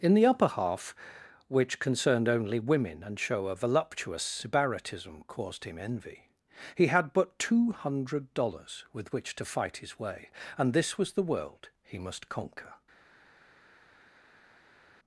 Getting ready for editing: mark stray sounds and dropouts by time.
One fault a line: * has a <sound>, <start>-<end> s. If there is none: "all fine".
all fine